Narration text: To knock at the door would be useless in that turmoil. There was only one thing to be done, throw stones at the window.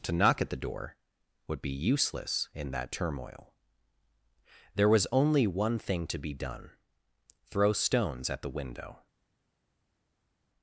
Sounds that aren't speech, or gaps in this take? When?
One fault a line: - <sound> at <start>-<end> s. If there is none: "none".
none